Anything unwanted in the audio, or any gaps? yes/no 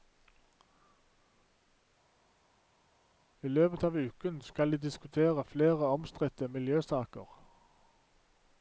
no